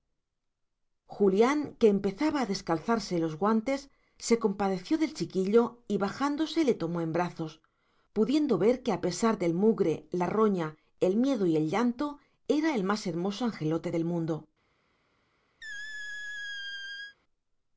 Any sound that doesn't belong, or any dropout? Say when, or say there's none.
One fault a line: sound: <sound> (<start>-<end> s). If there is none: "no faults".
sound: squeak (15.6-17.2 s)